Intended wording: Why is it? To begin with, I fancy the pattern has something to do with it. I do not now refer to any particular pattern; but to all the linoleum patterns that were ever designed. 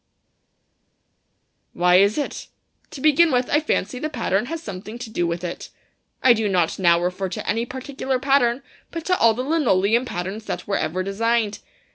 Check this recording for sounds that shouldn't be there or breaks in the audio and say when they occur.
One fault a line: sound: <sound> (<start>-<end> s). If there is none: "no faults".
no faults